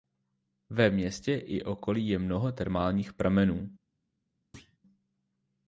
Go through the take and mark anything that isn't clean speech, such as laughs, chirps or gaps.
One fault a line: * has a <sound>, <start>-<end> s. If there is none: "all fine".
* has a thud, 4.5-4.8 s